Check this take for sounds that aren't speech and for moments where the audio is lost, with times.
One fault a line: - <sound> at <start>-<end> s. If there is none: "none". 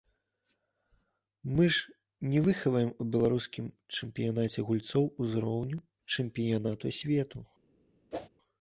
- whoosh at 8.1-8.3 s